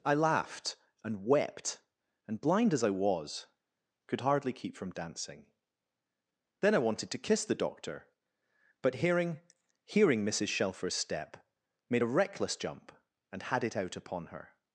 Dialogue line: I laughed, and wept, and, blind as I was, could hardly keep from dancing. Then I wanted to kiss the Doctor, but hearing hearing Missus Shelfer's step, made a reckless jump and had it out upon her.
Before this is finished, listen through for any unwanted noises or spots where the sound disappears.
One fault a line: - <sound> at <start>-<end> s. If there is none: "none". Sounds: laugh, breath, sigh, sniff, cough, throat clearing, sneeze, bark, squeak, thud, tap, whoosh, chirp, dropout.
none